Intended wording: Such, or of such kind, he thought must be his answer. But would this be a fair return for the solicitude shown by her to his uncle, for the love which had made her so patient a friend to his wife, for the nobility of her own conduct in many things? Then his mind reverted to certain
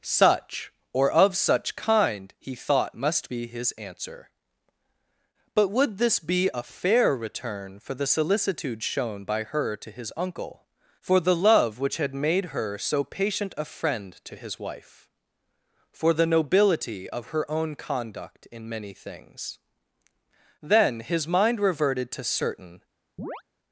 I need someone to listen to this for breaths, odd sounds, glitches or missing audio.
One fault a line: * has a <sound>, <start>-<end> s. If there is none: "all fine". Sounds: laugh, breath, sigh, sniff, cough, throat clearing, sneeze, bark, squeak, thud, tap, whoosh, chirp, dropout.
* has a chirp, 23.2-23.4 s